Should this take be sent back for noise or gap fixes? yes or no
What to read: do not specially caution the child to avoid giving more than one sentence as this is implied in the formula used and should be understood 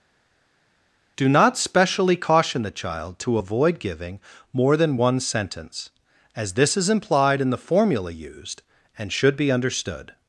no